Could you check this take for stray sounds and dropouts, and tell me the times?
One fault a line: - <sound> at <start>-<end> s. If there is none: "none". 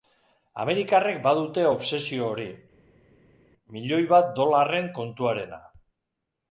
none